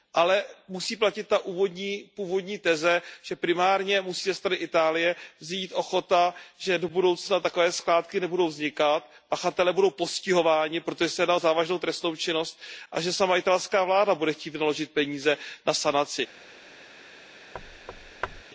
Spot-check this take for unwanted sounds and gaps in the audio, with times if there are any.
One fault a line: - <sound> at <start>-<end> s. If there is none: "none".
- thud at 17.5-18.4 s